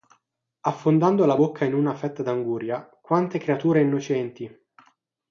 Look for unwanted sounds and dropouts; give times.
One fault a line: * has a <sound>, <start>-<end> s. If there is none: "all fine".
all fine